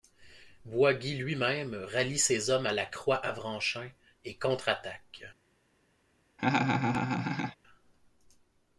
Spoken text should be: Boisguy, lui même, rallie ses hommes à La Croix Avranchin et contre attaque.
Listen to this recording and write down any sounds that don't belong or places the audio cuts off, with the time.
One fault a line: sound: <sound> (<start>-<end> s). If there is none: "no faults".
sound: laugh (6.4-7.6 s)